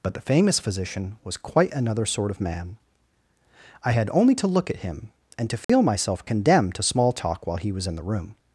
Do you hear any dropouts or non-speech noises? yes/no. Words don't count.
yes